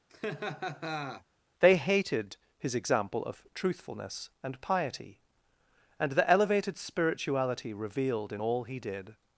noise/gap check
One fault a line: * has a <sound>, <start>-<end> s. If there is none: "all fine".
* has a laugh, 0.1-1.2 s